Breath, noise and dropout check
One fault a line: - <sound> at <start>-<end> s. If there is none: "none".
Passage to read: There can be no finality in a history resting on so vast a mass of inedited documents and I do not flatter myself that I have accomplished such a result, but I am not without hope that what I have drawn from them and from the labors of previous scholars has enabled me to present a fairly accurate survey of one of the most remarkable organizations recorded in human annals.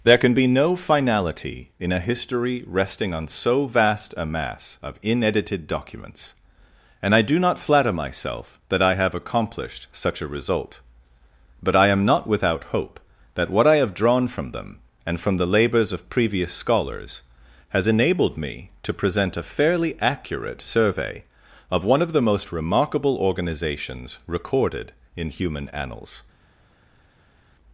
none